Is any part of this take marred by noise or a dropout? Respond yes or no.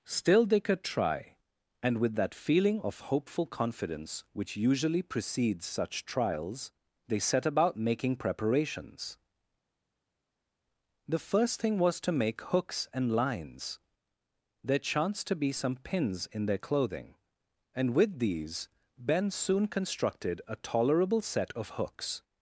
no